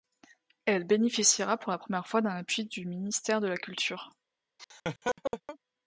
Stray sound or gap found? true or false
true